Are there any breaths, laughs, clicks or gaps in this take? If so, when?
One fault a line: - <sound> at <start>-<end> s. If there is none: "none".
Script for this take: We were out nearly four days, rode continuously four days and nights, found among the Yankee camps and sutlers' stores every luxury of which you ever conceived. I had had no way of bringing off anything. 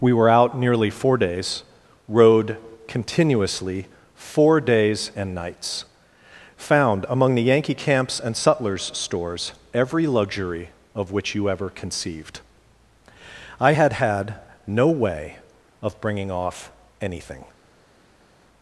none